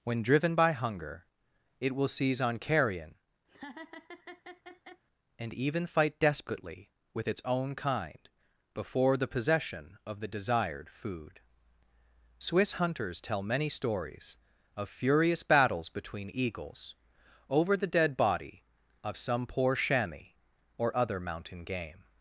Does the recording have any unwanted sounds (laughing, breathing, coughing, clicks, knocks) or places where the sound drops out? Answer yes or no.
yes